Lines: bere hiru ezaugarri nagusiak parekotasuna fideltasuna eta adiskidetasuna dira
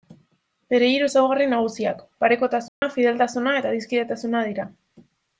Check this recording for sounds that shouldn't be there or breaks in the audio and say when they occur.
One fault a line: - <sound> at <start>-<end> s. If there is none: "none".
- dropout at 2.7-2.8 s